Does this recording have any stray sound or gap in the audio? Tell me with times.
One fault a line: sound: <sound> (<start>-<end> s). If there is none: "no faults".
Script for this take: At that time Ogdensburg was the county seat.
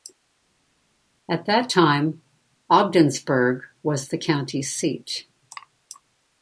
no faults